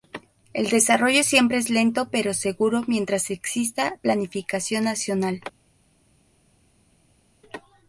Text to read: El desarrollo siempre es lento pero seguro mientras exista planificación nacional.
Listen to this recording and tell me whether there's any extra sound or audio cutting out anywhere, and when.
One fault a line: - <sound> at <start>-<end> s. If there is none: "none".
none